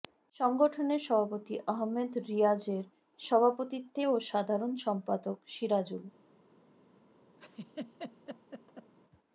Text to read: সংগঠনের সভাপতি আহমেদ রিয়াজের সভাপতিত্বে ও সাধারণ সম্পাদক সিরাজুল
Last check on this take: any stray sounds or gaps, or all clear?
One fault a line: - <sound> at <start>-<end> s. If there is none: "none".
- laugh at 7.4-8.9 s